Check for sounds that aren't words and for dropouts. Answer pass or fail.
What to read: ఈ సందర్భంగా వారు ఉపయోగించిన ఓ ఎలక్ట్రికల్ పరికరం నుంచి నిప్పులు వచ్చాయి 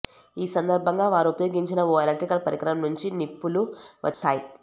fail